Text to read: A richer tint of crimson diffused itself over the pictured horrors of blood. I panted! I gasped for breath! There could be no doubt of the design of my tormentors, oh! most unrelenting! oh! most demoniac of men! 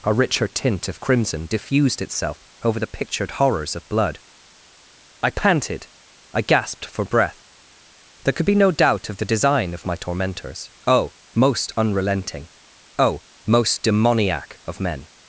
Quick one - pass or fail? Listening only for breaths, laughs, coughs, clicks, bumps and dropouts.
pass